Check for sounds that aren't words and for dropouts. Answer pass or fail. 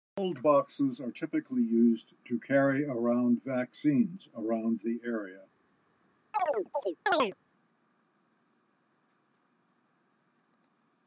fail